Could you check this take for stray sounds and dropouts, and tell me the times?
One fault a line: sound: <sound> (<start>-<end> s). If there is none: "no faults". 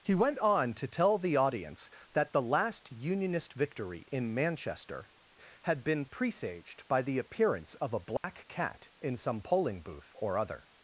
sound: dropout (8.2-8.2 s)